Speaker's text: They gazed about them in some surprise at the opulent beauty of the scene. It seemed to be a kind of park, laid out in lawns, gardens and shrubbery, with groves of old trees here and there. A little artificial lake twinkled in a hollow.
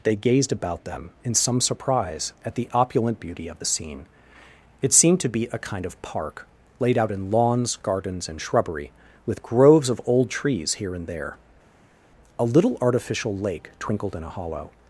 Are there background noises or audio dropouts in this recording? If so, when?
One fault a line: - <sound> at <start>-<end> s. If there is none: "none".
none